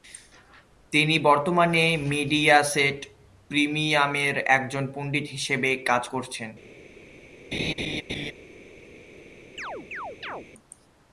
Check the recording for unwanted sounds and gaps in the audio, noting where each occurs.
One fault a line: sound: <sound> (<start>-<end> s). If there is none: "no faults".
sound: laugh (7.5-8.3 s)
sound: chirp (9.6-10.5 s)